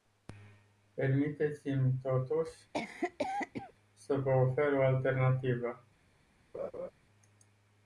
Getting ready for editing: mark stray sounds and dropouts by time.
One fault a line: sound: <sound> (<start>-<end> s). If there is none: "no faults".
sound: cough (2.7-3.7 s)
sound: laugh (6.5-6.9 s)